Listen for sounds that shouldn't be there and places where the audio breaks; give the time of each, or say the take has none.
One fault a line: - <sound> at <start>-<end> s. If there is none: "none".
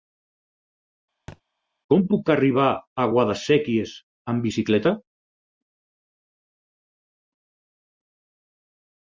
- thud at 1.3-1.4 s